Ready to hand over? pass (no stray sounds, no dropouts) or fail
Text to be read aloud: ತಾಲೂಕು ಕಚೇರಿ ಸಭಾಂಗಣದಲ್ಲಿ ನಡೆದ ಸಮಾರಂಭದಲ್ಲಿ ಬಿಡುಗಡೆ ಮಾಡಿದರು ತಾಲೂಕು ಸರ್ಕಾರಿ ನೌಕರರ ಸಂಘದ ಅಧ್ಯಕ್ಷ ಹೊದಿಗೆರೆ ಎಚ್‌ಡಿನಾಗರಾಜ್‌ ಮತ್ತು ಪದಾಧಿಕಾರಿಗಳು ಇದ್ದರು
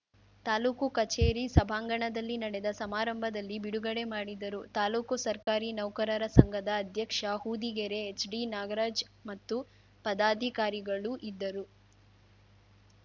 fail